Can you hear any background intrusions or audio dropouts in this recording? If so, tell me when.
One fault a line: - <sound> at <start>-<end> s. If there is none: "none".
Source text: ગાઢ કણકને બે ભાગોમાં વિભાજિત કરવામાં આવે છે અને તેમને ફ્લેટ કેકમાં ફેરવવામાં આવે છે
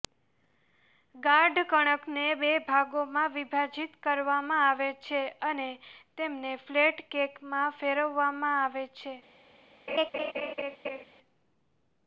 - laugh at 9.9-11.0 s